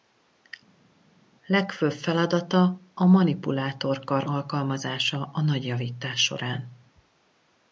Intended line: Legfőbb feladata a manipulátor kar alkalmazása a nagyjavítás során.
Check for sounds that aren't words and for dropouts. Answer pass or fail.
pass